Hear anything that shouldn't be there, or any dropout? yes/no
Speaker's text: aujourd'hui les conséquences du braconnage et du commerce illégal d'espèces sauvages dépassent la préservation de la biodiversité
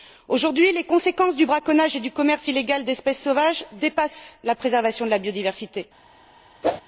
yes